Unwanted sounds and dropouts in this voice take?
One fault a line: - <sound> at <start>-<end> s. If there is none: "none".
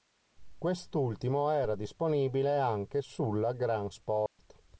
- dropout at 4.3-4.4 s